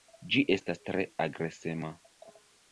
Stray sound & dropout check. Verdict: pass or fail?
pass